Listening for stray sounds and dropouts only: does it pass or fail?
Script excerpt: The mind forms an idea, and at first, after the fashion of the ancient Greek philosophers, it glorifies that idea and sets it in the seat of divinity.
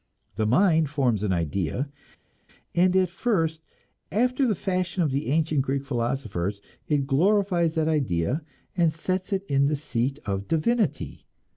pass